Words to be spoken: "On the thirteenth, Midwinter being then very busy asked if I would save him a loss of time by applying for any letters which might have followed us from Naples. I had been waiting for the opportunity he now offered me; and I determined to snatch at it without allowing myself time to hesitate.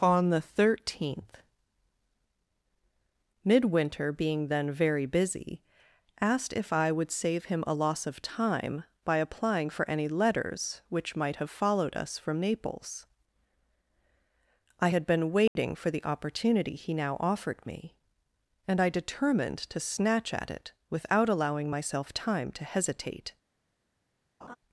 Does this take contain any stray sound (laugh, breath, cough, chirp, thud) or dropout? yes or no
yes